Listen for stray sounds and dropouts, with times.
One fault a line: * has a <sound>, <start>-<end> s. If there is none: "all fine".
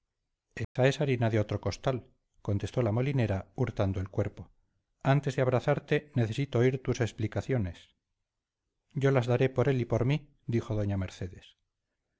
* has a dropout, 0.6-0.8 s